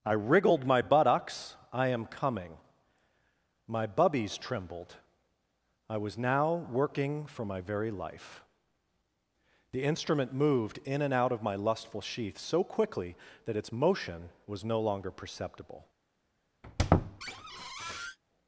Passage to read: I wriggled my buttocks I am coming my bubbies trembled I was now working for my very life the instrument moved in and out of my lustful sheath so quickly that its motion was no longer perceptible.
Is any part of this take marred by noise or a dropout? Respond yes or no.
yes